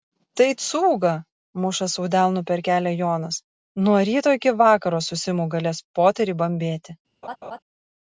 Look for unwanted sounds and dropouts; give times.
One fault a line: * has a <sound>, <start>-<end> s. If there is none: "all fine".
* has a laugh, 7.2-7.6 s